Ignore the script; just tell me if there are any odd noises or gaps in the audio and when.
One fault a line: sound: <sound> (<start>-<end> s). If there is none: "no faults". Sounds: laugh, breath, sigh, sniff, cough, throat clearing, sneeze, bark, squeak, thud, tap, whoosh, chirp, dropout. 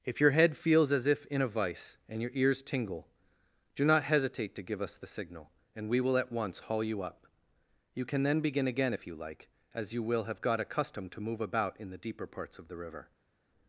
no faults